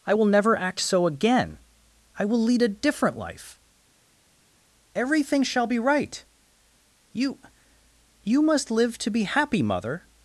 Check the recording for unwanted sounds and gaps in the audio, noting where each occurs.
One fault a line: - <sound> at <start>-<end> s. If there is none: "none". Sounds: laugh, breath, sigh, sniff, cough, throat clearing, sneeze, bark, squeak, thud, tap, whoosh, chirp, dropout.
none